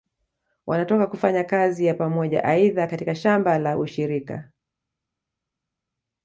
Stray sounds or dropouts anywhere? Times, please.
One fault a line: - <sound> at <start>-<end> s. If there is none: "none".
none